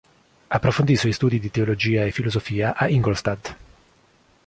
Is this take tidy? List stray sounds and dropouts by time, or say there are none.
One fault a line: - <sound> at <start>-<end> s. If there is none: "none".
none